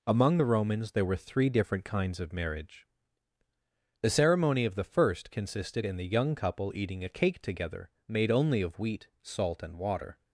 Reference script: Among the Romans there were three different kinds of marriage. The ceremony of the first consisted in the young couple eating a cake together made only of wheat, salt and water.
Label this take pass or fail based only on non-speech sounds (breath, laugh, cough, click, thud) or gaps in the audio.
pass